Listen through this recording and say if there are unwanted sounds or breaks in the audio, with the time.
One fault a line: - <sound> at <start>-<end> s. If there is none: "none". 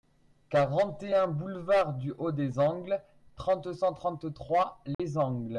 - dropout at 4.9-5.0 s